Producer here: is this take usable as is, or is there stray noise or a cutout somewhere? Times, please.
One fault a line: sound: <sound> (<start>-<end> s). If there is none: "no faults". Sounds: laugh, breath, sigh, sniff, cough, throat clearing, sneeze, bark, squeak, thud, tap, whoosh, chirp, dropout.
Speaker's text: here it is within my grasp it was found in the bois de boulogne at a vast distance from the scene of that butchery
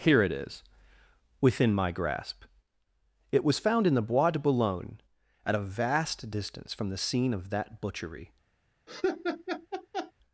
sound: laugh (8.9-10.1 s)